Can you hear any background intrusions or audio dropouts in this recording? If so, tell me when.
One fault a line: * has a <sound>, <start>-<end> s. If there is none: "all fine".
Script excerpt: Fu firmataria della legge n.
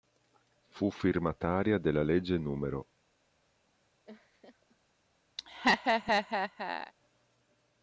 * has a laugh, 4.1-4.8 s
* has a laugh, 5.4-6.9 s